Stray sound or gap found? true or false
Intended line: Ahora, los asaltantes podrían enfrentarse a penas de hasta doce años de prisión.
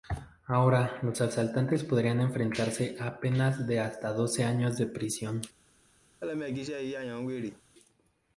true